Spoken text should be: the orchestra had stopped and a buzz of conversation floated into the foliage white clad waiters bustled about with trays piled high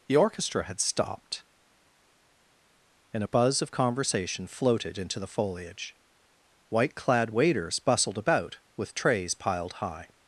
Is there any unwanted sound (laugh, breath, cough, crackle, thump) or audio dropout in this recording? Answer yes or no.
no